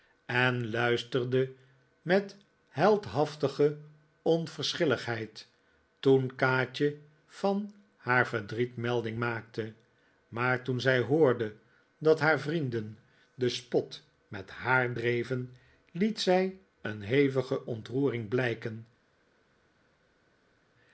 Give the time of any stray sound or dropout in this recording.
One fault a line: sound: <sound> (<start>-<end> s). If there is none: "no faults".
no faults